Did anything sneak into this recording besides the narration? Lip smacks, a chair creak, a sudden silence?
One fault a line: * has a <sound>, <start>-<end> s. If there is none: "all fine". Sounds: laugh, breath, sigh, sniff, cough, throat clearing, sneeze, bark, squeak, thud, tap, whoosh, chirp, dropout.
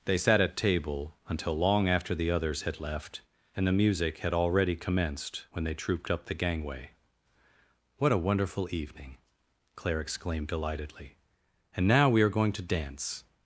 all fine